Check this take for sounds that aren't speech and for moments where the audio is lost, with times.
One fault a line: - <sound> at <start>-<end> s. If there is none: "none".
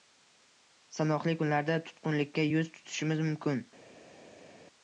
none